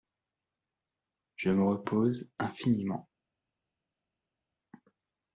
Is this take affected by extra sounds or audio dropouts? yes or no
no